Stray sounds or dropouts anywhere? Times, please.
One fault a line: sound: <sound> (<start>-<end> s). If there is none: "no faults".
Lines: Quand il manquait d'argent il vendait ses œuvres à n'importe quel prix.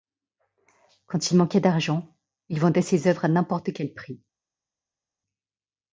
no faults